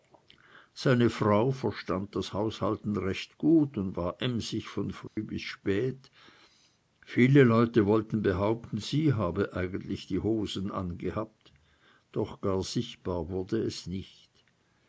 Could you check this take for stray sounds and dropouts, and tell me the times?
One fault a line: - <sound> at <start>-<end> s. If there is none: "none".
- dropout at 5.1-5.2 s